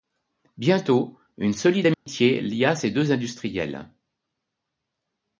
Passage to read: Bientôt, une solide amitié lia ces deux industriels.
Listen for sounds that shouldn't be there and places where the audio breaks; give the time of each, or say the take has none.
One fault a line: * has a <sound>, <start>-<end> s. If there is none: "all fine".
* has a dropout, 1.9-2.1 s